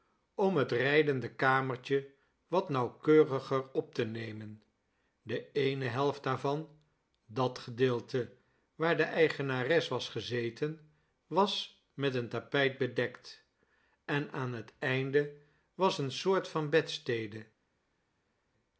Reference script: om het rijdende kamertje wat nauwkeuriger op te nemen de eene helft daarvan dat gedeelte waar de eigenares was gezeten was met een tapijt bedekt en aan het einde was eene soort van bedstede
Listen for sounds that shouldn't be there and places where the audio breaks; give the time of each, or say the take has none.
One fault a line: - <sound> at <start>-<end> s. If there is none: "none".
none